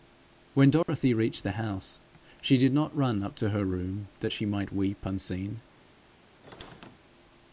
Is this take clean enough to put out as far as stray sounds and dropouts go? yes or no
no